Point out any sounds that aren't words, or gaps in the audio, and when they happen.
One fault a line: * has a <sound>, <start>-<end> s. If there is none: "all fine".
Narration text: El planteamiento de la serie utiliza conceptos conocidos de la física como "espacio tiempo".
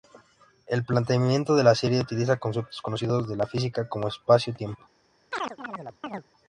* has a chirp, 5.3-6.2 s